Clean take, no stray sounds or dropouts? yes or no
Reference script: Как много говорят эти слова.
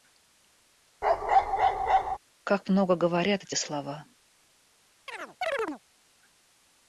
no